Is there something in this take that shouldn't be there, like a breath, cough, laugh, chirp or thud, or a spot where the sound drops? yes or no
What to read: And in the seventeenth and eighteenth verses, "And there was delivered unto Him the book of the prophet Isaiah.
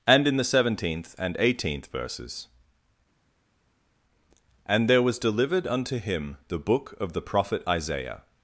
no